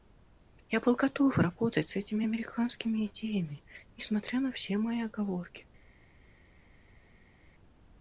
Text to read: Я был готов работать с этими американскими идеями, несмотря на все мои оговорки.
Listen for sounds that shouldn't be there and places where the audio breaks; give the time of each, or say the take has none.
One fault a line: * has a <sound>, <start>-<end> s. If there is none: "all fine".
all fine